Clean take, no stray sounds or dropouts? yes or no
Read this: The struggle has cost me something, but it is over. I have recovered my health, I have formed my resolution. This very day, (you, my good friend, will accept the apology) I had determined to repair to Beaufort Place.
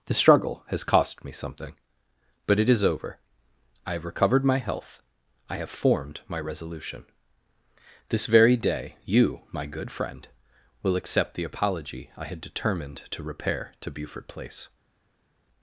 yes